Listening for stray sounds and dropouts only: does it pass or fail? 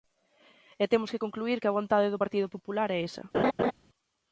fail